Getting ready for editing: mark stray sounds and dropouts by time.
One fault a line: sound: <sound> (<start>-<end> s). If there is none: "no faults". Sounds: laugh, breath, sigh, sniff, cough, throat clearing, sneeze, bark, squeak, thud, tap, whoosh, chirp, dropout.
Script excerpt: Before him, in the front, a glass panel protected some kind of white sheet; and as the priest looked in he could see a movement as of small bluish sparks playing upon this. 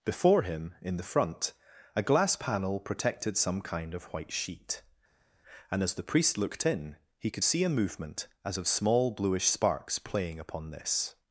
no faults